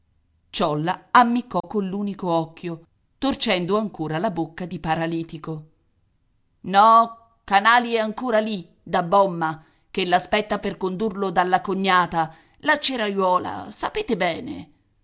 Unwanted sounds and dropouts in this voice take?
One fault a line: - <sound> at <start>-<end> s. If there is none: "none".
- dropout at 1.6-1.6 s